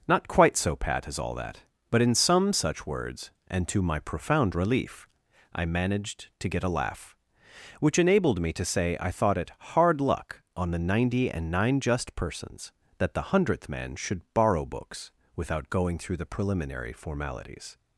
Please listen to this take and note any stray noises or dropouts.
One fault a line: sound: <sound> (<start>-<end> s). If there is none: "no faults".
no faults